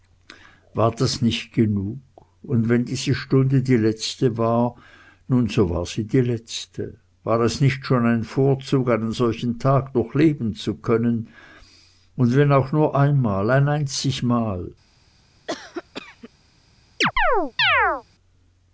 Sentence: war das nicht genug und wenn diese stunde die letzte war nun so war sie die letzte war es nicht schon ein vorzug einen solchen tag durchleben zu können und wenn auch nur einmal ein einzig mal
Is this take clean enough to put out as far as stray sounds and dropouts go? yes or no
no